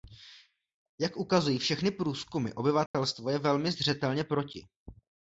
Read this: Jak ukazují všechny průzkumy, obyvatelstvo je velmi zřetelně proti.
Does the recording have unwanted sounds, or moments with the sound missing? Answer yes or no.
yes